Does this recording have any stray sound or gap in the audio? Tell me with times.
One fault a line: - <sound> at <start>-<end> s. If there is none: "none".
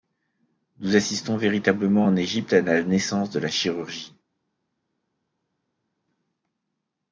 none